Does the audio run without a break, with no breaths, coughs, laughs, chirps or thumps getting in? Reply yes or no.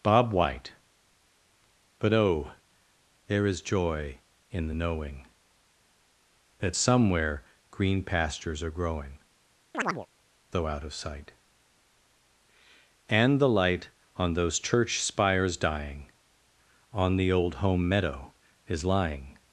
no